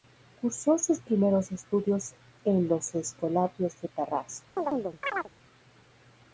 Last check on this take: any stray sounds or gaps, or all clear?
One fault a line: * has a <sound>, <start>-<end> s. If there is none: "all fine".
* has a chirp, 4.6-5.3 s